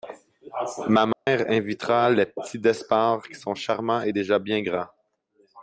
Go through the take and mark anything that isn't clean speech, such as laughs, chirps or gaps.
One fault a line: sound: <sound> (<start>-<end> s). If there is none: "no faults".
sound: dropout (1.1-1.3 s)